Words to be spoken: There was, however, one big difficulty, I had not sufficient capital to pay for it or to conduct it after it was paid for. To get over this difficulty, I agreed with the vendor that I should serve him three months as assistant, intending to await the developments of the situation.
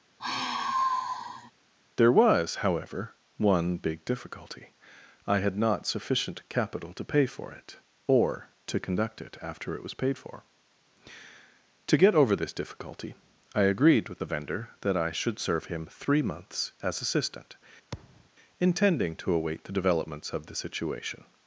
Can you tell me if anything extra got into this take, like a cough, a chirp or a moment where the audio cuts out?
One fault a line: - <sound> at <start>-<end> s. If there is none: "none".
- sigh at 0.2-1.5 s
- thud at 17.9-18.3 s